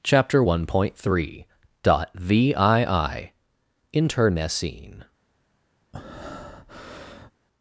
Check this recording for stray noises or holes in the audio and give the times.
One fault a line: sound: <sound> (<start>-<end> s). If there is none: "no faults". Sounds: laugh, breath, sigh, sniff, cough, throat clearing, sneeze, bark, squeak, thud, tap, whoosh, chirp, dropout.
sound: breath (5.9-7.3 s)